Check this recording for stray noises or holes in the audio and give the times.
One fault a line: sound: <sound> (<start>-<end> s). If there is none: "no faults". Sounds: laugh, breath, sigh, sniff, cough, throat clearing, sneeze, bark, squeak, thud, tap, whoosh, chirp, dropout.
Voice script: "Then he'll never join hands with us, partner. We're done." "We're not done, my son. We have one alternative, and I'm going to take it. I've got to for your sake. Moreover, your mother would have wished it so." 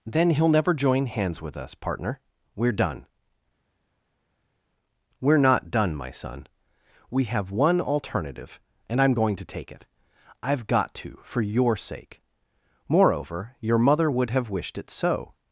no faults